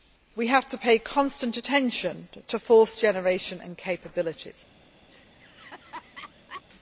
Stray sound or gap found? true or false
true